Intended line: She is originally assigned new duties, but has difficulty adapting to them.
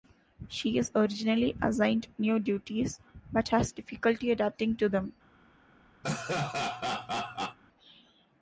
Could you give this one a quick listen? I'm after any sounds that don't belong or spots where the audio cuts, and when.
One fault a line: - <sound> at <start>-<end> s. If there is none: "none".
- laugh at 6.0-7.6 s